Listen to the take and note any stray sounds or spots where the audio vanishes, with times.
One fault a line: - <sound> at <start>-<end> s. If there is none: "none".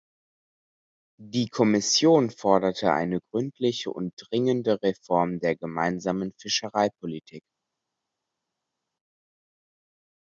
none